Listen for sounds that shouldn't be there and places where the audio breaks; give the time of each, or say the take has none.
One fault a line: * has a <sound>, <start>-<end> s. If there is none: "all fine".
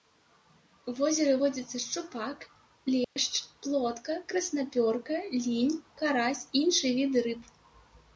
* has a dropout, 3.0-3.2 s